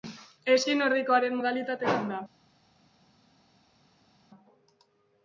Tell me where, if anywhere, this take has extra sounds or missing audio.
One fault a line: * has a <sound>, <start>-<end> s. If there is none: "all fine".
all fine